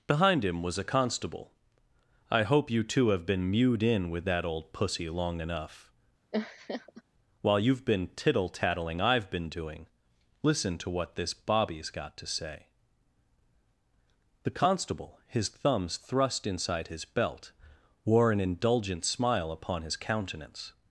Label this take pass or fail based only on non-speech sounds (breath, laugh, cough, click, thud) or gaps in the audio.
fail